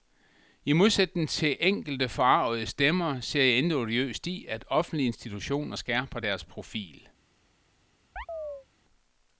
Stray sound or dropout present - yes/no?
yes